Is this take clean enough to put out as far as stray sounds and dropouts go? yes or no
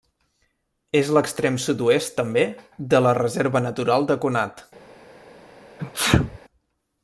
no